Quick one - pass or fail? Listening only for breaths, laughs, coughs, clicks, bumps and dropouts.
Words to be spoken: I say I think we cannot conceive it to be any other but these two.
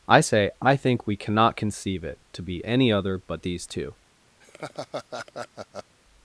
fail